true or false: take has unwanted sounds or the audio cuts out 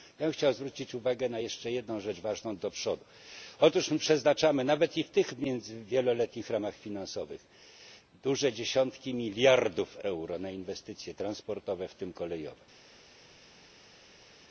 false